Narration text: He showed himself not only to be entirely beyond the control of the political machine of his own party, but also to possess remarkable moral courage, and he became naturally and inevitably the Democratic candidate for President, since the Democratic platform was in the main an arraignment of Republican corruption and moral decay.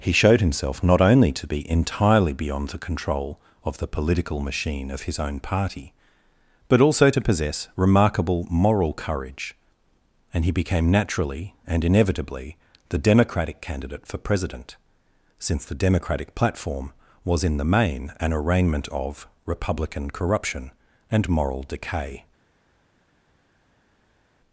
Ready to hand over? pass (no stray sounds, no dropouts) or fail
pass